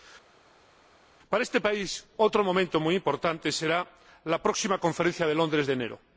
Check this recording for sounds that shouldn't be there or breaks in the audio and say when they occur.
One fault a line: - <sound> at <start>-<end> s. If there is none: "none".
none